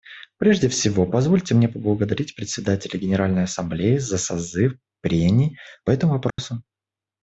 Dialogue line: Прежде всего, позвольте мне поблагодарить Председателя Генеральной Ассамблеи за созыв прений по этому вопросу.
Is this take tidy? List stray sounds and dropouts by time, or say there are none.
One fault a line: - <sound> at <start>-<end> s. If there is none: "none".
- dropout at 6.3-6.4 s